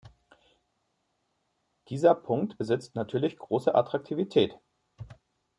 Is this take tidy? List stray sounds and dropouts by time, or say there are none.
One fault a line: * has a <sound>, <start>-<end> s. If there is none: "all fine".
all fine